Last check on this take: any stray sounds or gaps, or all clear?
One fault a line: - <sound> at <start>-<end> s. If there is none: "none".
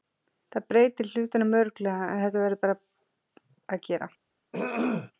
- throat clearing at 4.5-5.1 s